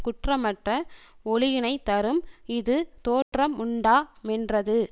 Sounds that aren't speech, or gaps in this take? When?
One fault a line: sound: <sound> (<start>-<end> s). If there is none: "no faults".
sound: dropout (3.2-3.3 s)